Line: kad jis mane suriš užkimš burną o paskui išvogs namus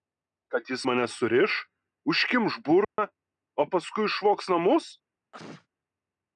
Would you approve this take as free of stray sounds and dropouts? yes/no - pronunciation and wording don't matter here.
no